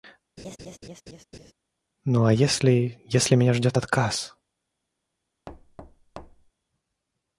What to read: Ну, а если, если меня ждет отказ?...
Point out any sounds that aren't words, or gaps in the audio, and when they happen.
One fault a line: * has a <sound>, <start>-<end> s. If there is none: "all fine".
* has a laugh, 0.4-1.5 s
* has a thud, 5.5-6.5 s